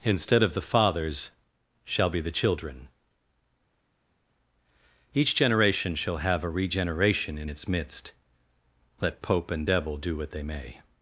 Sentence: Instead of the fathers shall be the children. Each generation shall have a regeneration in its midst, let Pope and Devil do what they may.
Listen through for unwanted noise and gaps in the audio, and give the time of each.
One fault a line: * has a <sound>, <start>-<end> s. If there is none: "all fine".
all fine